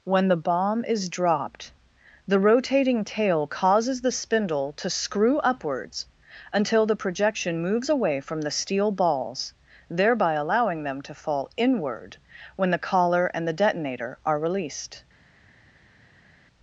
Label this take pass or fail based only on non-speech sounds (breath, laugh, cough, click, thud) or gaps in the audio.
pass